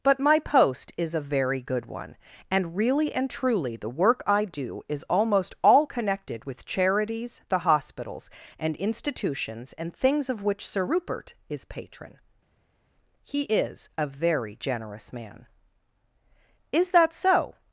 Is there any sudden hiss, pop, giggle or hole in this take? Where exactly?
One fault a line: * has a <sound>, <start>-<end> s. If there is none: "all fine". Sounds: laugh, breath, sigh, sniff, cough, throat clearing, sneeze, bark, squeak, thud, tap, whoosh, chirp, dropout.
all fine